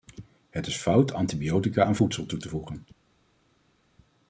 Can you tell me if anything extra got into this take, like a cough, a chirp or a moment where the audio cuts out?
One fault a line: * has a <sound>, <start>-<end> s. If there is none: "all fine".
all fine